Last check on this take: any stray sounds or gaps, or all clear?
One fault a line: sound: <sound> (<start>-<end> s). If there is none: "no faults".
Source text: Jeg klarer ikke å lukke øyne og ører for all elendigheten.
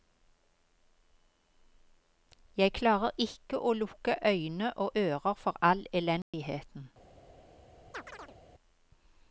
sound: dropout (6.2-6.3 s)
sound: chirp (7.9-8.4 s)